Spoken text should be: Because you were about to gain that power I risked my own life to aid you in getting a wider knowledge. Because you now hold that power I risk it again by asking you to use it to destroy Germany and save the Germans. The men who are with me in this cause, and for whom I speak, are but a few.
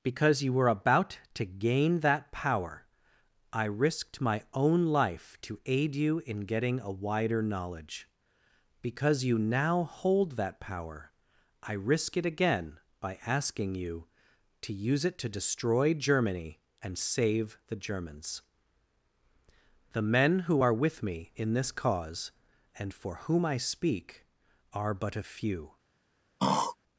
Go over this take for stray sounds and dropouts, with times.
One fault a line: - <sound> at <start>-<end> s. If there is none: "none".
- throat clearing at 26.4-26.8 s